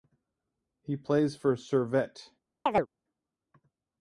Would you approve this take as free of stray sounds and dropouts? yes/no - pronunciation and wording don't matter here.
no